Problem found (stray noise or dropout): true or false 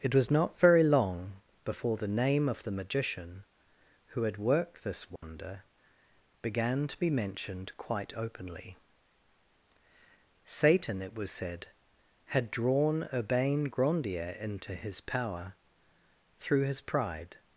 true